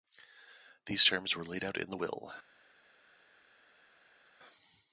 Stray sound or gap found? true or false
false